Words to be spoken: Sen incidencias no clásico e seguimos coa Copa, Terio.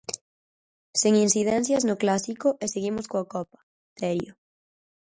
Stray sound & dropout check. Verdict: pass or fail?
pass